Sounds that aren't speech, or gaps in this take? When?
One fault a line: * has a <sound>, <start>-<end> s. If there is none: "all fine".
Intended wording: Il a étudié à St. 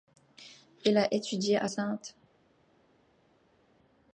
all fine